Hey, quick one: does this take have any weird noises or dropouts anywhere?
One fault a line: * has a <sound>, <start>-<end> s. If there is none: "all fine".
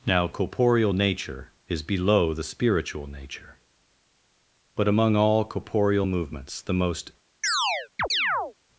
* has a chirp, 7.4-8.5 s